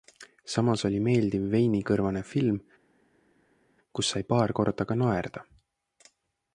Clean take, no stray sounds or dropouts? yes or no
yes